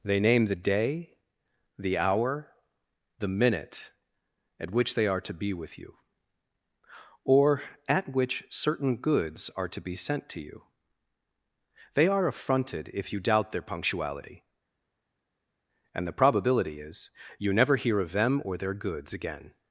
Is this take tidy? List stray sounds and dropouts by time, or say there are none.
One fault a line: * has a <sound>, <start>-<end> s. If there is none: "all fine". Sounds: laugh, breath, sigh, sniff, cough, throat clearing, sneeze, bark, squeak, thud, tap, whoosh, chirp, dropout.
all fine